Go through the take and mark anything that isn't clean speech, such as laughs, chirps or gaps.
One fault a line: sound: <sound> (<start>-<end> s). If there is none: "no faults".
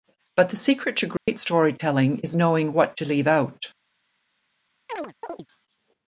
sound: dropout (1.2-1.3 s)
sound: chirp (4.9-5.5 s)